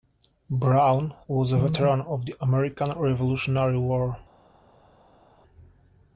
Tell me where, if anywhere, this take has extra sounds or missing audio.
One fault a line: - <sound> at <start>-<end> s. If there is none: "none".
none